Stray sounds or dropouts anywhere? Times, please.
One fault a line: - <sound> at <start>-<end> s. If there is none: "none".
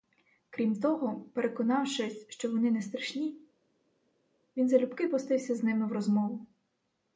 none